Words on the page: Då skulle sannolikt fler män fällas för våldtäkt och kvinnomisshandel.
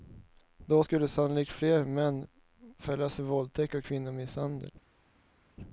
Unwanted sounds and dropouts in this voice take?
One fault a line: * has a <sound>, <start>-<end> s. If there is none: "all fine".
all fine